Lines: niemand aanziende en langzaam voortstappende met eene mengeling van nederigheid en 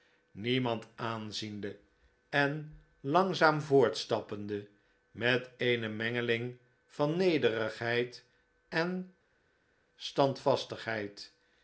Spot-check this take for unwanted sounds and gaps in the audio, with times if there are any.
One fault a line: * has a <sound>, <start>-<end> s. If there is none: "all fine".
all fine